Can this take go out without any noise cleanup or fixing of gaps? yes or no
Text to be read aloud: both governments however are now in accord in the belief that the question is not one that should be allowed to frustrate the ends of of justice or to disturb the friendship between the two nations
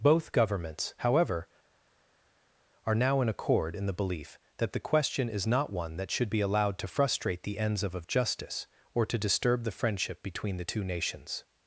yes